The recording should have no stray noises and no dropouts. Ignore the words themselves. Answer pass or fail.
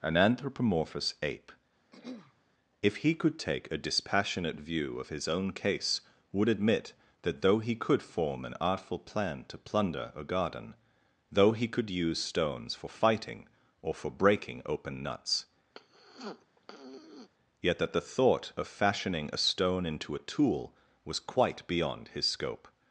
fail